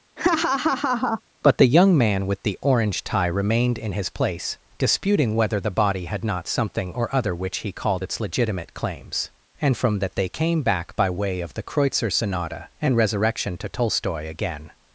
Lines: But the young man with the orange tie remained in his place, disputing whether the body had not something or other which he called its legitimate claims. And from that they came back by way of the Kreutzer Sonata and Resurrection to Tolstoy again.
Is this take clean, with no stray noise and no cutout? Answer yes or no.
no